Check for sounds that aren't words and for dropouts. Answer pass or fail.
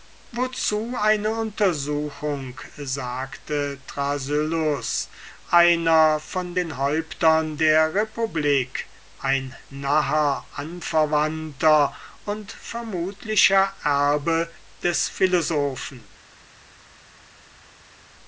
pass